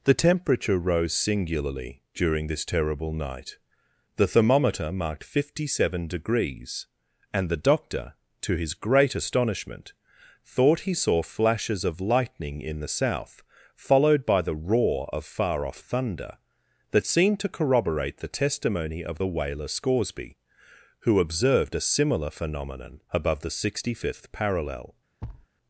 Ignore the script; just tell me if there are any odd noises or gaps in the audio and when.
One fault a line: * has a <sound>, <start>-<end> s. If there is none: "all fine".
* has a thud, 25.2-25.5 s